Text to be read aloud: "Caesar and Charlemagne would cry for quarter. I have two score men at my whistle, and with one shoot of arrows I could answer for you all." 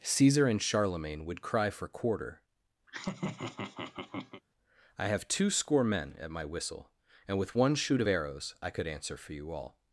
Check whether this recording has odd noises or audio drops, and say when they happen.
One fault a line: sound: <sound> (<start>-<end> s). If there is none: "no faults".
sound: laugh (2.9-4.4 s)